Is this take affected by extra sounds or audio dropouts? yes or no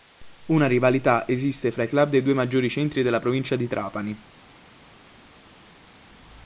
no